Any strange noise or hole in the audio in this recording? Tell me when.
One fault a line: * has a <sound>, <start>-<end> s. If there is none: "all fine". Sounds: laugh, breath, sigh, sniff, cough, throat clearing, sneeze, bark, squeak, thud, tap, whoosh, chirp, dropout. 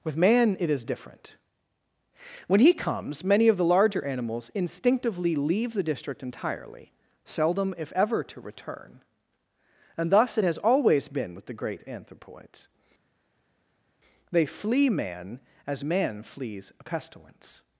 all fine